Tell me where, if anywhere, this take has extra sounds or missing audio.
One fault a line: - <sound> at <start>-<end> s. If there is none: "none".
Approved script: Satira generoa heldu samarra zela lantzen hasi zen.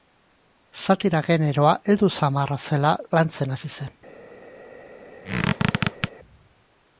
- squeak at 5.2-6.1 s